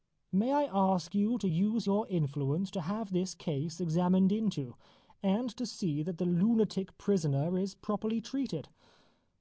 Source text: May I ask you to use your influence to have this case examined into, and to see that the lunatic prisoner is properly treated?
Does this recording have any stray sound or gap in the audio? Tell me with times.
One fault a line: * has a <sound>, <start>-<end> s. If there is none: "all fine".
all fine